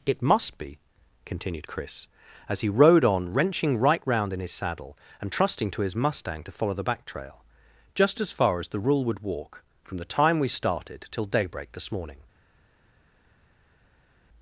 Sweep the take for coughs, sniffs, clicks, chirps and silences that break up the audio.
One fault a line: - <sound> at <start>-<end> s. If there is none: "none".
none